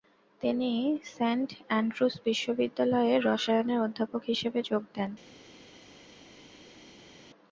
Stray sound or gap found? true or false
false